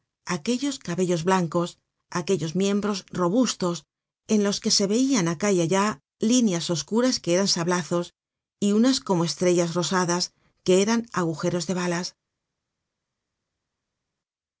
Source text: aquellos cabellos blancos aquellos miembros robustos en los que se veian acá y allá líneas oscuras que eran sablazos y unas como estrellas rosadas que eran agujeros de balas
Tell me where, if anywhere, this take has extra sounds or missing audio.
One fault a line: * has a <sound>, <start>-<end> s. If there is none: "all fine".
all fine